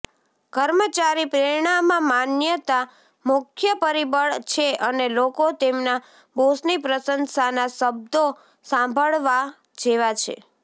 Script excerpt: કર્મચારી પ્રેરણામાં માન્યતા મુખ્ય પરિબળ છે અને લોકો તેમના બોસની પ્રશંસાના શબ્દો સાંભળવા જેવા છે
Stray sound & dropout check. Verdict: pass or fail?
pass